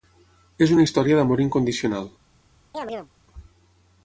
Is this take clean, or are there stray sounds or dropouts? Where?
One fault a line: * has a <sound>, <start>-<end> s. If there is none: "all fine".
* has a chirp, 2.7-3.1 s